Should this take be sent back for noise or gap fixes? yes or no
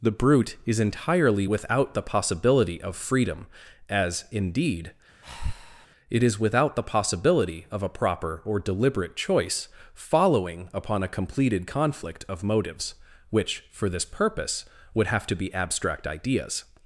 yes